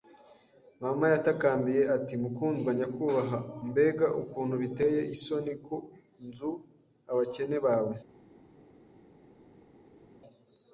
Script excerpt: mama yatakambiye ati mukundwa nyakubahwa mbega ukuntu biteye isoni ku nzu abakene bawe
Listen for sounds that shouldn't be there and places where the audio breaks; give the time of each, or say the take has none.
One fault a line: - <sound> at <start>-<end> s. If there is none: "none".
none